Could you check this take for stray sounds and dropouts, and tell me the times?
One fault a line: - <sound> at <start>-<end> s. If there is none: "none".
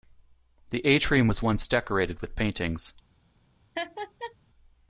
- laugh at 3.8-4.4 s